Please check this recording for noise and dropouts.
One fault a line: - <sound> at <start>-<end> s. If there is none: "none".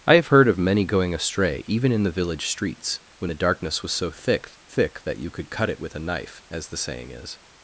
none